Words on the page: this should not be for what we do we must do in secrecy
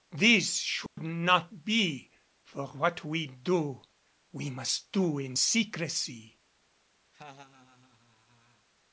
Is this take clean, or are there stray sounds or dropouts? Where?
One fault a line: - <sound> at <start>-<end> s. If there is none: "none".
- dropout at 0.9-1.0 s
- laugh at 7.1-8.7 s